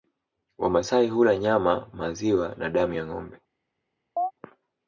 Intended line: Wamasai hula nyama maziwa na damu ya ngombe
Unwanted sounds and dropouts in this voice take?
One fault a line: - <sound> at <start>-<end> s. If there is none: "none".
- chirp at 4.2-4.3 s